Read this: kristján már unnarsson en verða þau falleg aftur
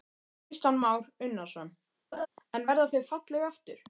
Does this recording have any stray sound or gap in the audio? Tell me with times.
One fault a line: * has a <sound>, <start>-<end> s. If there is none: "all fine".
* has a laugh, 2.1-2.3 s